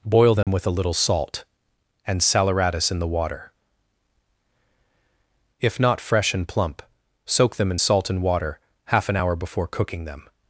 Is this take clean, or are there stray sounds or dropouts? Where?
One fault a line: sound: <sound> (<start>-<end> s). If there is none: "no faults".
sound: dropout (0.4-0.5 s)